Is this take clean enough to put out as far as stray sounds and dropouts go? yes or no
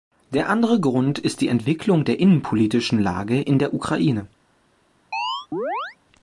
no